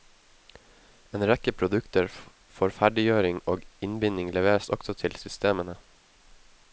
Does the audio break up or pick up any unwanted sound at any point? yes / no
no